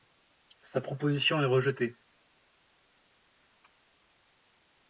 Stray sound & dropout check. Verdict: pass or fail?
pass